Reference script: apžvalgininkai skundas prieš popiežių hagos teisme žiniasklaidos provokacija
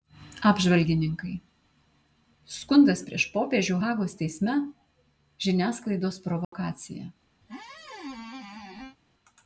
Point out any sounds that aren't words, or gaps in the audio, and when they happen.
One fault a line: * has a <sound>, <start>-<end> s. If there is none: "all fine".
* has a dropout, 6.4-6.5 s
* has a squeak, 7.4-9.0 s